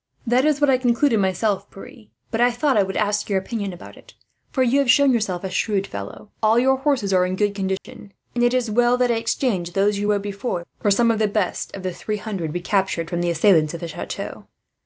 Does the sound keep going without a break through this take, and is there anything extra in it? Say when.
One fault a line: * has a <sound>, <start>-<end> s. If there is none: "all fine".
* has a dropout, 7.8-7.8 s